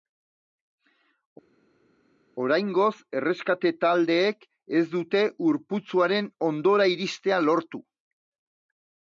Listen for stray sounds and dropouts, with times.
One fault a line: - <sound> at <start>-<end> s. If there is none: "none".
none